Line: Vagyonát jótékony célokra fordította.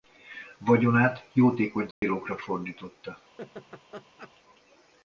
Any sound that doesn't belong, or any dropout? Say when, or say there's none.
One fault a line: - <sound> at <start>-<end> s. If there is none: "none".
- dropout at 1.9-2.0 s
- laugh at 3.4-4.3 s